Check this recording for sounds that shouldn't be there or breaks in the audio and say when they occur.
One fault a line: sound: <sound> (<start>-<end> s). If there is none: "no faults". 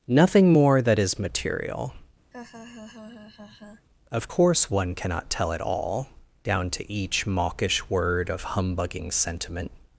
sound: laugh (2.3-3.9 s)